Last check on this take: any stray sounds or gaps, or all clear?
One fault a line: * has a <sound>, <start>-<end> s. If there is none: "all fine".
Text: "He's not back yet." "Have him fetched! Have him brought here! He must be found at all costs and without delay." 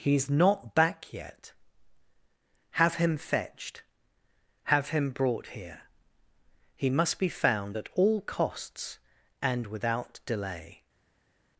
all fine